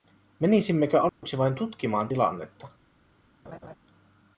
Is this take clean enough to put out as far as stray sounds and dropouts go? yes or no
no